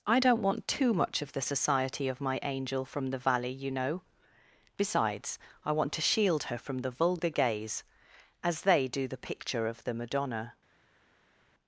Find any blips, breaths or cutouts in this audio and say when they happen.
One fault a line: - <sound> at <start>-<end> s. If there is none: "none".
none